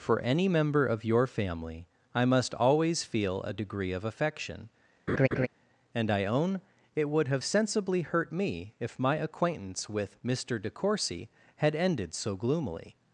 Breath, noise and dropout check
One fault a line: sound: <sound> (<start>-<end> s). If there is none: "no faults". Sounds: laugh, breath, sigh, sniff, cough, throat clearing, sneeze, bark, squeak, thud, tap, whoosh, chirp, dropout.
sound: laugh (5.1-5.5 s)